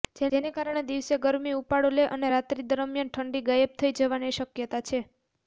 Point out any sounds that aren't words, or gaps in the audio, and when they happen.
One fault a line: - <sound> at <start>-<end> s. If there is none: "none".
none